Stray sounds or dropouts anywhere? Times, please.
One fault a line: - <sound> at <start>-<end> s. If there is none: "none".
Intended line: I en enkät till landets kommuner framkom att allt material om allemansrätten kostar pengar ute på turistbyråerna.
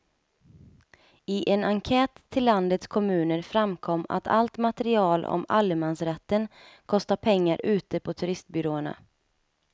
none